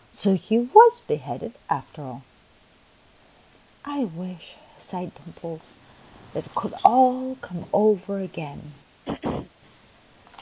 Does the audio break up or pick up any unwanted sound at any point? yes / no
yes